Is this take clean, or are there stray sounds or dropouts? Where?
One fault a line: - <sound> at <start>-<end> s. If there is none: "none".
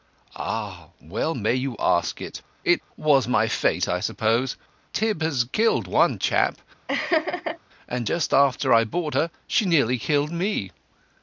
- laugh at 6.9-7.6 s